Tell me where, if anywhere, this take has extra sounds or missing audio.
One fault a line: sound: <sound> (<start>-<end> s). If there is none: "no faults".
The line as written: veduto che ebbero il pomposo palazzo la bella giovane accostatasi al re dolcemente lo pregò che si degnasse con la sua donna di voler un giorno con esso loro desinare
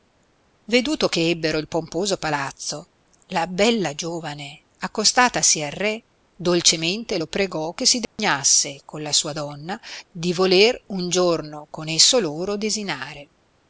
sound: dropout (8.0-8.2 s)